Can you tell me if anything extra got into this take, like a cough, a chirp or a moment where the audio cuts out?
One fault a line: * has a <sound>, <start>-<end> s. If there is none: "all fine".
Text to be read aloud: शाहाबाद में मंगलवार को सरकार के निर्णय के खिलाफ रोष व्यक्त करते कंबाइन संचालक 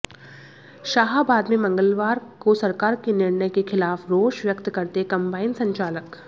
all fine